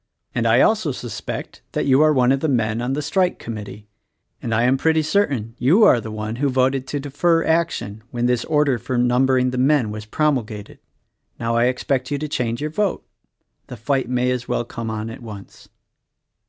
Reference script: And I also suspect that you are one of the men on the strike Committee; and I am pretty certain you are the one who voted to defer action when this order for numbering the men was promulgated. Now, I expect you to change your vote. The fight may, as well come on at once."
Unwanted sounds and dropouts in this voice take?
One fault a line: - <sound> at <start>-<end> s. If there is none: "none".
none